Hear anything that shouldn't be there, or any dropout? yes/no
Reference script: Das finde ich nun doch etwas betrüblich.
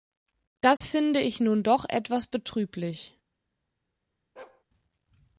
yes